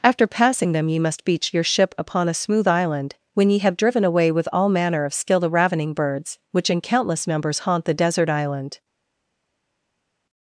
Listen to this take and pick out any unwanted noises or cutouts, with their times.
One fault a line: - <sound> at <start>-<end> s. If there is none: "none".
none